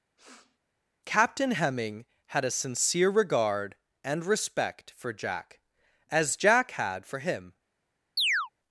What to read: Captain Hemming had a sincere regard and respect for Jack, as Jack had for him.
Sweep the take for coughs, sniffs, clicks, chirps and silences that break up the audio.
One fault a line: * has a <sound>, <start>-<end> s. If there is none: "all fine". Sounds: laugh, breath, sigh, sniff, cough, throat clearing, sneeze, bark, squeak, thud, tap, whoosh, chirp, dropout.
* has a sniff, 0.2-0.6 s
* has a chirp, 8.2-8.5 s